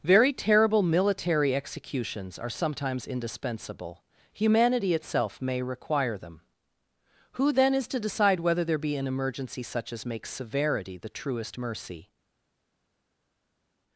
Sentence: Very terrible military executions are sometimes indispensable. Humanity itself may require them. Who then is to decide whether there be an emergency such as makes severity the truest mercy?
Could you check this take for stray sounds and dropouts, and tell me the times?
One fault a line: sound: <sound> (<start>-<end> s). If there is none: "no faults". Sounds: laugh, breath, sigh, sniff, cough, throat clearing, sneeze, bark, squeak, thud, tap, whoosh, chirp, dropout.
no faults